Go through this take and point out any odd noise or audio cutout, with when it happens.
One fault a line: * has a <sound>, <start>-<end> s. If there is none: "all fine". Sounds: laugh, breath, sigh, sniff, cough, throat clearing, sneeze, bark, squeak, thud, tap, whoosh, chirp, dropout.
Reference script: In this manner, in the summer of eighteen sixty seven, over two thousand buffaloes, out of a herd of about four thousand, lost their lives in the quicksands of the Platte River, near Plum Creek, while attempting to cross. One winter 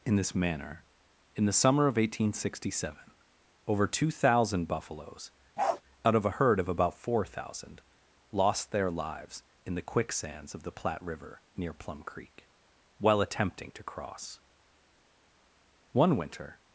* has a bark, 5.6-5.8 s